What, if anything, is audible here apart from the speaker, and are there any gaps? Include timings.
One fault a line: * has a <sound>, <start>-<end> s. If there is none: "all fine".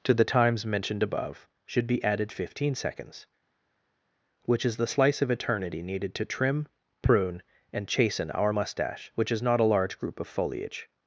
all fine